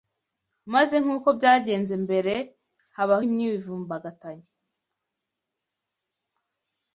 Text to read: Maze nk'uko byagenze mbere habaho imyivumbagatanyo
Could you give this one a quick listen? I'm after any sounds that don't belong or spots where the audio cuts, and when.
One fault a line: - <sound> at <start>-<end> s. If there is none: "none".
none